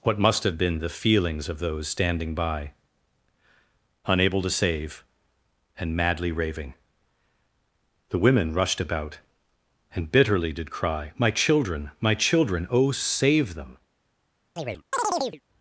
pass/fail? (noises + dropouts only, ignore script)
fail